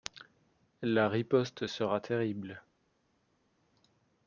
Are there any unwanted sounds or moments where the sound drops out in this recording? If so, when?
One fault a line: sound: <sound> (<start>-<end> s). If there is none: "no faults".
no faults